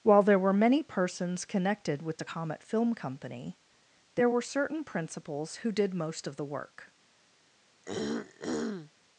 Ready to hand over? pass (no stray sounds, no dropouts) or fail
fail